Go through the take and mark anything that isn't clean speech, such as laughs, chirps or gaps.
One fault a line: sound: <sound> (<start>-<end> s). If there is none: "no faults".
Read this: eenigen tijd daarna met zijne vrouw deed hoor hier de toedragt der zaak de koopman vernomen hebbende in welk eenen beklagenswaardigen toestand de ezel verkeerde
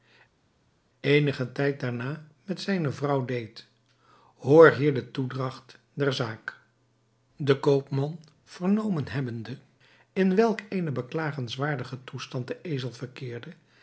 no faults